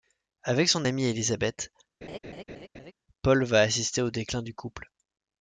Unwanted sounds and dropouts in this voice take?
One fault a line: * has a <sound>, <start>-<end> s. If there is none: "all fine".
* has a laugh, 2.0-2.9 s